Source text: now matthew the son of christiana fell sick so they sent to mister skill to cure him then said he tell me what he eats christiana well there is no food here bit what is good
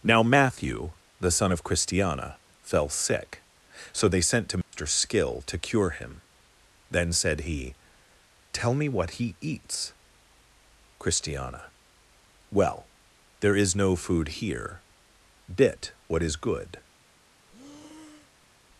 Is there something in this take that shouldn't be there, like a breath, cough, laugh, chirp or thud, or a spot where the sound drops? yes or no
yes